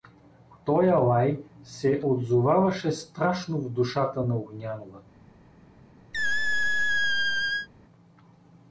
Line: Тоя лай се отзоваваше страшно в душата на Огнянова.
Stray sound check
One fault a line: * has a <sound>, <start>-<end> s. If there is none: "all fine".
* has a squeak, 6.1-7.7 s